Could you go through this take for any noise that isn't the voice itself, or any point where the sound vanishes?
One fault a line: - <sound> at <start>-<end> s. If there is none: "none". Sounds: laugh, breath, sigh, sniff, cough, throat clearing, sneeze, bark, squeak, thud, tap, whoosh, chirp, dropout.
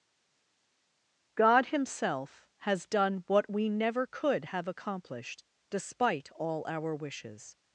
none